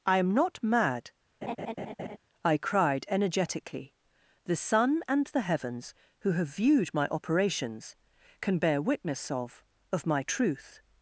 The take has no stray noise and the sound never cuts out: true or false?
false